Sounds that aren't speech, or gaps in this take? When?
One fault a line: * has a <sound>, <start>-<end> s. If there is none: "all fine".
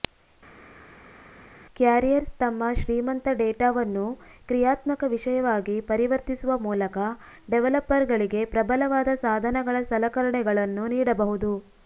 all fine